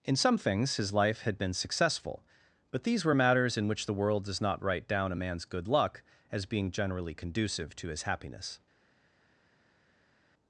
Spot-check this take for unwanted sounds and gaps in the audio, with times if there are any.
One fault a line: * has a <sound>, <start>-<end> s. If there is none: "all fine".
all fine